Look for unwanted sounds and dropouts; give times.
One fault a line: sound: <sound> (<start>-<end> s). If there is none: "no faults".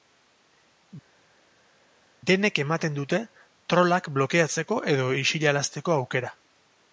no faults